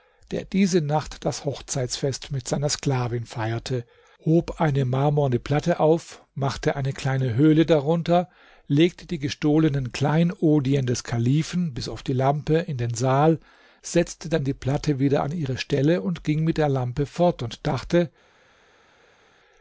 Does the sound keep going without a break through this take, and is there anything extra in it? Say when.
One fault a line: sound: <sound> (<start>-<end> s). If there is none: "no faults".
no faults